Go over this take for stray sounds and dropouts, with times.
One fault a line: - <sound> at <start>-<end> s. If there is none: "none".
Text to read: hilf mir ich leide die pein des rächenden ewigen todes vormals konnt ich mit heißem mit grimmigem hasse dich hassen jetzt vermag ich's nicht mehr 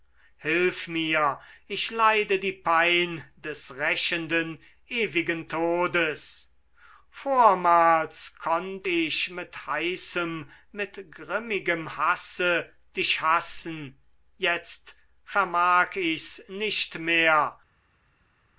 none